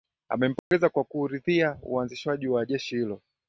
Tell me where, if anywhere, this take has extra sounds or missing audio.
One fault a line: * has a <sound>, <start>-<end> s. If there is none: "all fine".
* has a dropout, 0.6-0.7 s